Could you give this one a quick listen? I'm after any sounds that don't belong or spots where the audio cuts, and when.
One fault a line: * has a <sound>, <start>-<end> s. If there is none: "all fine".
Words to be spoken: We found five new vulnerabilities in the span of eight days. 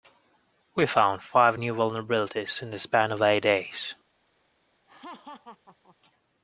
* has a laugh, 4.9-6.0 s